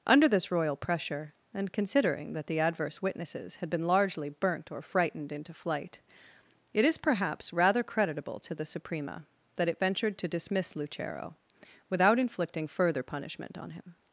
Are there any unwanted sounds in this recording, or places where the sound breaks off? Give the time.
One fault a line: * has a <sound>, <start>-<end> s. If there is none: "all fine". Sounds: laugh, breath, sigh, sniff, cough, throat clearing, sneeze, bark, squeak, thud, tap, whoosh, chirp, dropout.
all fine